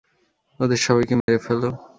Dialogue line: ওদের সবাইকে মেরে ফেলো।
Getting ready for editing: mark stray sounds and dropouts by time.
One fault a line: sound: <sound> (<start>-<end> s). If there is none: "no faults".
sound: dropout (1.2-1.3 s)